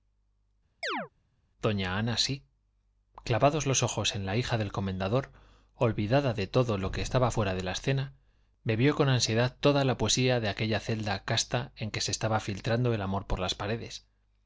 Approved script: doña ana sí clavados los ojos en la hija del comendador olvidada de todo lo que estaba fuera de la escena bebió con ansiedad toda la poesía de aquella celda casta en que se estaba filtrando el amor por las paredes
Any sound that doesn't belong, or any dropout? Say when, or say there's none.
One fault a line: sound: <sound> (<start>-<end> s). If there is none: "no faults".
sound: chirp (0.8-1.1 s)